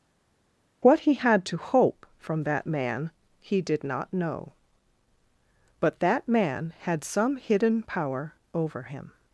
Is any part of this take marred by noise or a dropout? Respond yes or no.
no